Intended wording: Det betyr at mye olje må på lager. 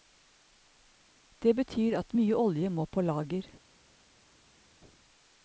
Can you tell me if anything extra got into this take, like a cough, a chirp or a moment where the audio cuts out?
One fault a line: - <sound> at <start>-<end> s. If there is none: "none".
none